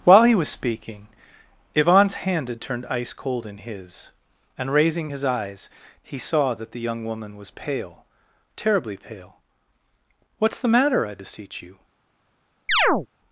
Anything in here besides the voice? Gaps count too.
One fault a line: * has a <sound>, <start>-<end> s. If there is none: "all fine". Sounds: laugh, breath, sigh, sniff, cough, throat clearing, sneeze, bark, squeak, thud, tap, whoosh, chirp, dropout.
* has a chirp, 12.7-13.1 s